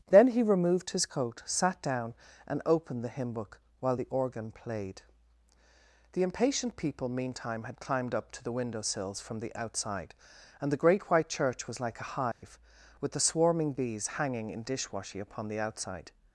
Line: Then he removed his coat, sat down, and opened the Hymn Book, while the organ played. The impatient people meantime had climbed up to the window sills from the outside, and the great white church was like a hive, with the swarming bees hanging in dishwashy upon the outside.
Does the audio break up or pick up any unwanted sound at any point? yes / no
yes